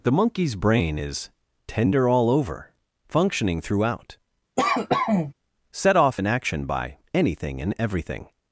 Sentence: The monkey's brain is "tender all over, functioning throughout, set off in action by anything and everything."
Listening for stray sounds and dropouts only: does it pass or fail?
fail